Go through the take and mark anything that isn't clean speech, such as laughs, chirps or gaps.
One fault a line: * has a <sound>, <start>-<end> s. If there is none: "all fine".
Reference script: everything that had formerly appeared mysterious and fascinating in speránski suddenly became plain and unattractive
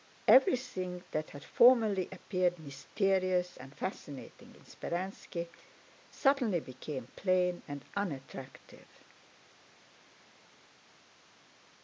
all fine